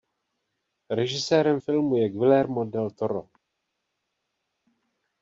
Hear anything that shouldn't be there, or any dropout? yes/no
no